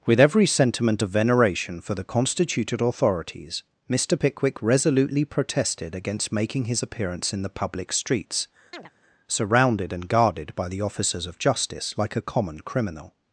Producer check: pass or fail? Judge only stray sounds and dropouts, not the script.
fail